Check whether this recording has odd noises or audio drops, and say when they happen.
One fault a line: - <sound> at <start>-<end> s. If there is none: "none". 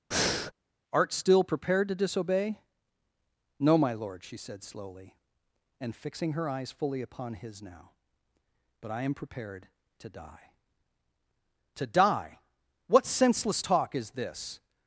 - breath at 0.1-0.5 s